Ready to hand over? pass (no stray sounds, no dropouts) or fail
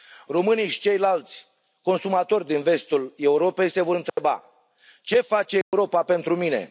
fail